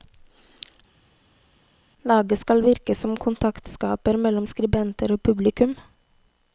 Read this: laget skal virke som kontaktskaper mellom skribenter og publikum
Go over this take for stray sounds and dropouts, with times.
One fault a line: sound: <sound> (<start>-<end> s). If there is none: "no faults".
no faults